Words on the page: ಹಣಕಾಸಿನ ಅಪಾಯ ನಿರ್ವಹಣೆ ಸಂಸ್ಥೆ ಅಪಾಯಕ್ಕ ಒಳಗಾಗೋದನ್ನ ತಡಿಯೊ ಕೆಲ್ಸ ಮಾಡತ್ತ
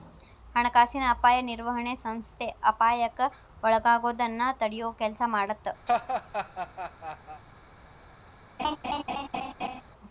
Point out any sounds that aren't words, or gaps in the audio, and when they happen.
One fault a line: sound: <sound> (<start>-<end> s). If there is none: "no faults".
sound: laugh (5.9-7.4 s)
sound: laugh (8.6-9.8 s)